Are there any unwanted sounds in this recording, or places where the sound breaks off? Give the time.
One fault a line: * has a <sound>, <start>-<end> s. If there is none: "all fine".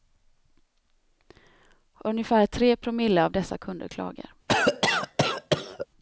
* has a cough, 4.5-5.9 s